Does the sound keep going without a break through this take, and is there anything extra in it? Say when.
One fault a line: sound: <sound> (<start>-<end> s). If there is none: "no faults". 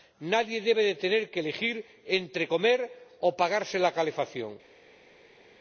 no faults